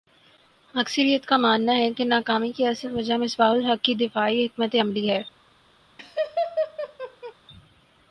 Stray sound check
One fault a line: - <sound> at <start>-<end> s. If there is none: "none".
- laugh at 6.0-7.3 s